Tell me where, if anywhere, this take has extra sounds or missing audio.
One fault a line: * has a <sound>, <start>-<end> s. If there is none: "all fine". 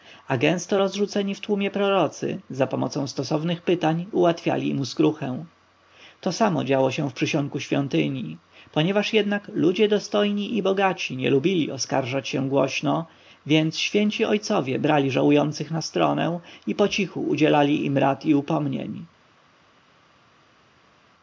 all fine